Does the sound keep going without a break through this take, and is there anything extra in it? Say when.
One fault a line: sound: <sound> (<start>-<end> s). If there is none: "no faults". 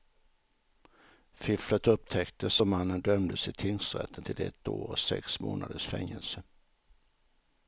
no faults